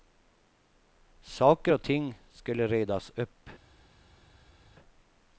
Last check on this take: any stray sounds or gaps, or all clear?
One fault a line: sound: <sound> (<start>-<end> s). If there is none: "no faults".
no faults